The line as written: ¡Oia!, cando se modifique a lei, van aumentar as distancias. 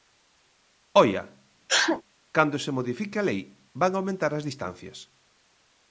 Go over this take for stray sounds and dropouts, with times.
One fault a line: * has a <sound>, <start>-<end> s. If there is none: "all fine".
* has a sneeze, 1.7-2.0 s